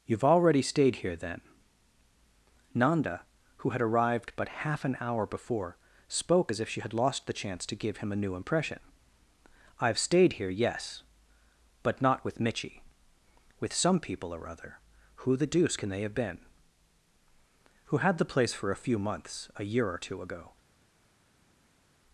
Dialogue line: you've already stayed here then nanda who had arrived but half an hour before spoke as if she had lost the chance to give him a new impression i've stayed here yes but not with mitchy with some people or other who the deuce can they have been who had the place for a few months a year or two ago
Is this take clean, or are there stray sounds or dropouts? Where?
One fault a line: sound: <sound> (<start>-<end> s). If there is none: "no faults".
no faults